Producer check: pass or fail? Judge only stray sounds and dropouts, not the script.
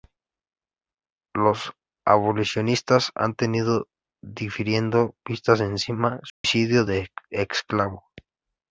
fail